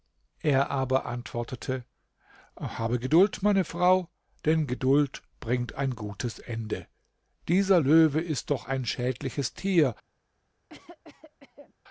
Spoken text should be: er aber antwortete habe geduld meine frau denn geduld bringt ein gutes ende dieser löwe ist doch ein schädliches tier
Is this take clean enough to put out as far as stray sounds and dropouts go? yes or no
no